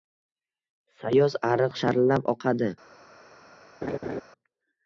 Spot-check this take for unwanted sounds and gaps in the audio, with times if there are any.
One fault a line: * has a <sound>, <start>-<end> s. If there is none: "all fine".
* has a laugh, 3.8-4.2 s